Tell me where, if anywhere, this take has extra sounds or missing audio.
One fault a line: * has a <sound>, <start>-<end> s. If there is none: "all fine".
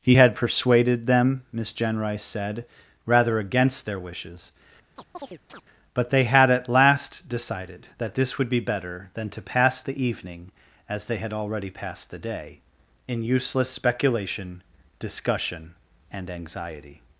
* has a chirp, 5.0-5.6 s